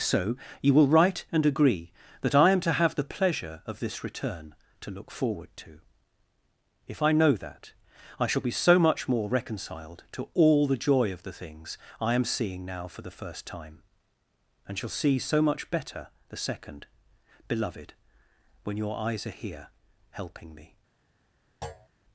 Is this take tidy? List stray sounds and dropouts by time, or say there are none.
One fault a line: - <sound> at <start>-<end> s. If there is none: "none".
- thud at 21.6-21.9 s